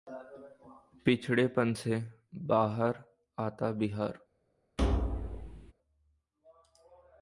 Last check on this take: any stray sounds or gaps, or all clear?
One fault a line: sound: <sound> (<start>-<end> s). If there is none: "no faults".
sound: thud (4.8-5.7 s)